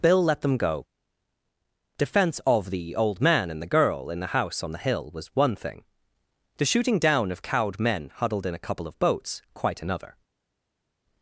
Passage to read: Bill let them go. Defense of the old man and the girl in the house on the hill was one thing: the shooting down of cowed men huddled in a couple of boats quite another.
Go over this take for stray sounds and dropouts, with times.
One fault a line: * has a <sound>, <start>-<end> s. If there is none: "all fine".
all fine